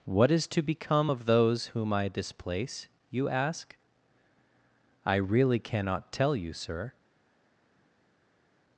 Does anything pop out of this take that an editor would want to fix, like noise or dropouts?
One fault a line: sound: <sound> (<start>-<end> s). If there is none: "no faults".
no faults